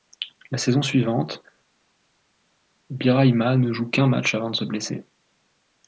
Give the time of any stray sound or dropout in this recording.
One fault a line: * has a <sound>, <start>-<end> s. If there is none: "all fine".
all fine